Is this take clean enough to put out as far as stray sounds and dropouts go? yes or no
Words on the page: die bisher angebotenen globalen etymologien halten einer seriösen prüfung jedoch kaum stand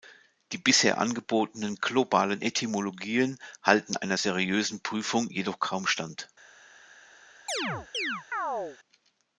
no